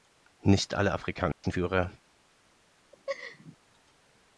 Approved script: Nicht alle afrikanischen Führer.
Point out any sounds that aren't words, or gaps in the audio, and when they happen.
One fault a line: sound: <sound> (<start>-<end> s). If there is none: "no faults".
sound: dropout (1.3-1.4 s)
sound: laugh (2.9-3.6 s)